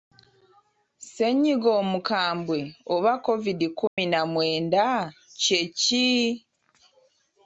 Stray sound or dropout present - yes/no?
yes